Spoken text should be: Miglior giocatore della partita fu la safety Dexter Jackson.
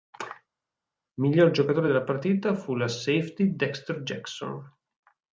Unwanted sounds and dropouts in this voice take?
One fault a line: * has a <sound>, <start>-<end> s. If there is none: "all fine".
all fine